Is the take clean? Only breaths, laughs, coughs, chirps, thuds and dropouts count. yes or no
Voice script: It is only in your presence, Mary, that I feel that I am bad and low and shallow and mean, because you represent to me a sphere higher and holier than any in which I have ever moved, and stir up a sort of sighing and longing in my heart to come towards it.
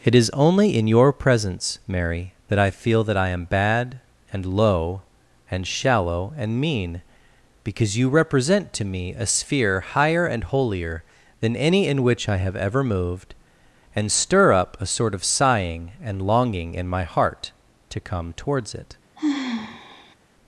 no